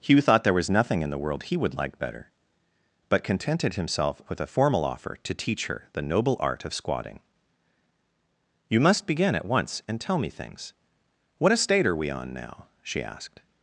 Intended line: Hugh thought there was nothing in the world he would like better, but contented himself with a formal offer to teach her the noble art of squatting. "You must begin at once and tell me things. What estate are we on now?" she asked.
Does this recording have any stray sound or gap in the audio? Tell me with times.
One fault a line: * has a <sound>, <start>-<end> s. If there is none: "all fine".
all fine